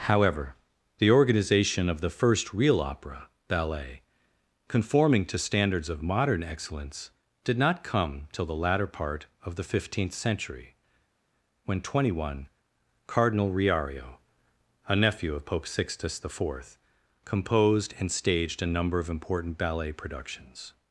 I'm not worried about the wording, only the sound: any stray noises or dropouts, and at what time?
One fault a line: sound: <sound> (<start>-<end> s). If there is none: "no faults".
no faults